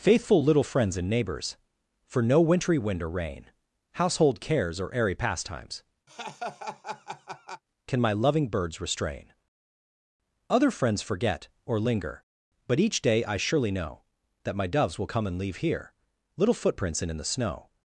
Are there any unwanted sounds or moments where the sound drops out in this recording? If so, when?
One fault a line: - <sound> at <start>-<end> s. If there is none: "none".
- laugh at 6.1-7.6 s